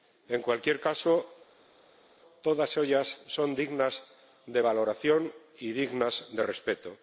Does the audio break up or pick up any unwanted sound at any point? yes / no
no